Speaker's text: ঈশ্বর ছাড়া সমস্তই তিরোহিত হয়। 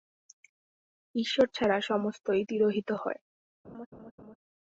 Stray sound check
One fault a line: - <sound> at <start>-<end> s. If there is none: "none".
- laugh at 3.6-4.4 s